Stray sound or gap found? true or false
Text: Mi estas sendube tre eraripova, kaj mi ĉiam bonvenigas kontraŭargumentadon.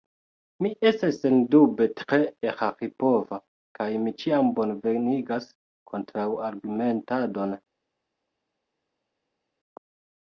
false